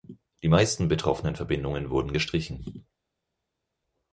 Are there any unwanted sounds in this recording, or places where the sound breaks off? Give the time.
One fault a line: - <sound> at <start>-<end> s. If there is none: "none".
none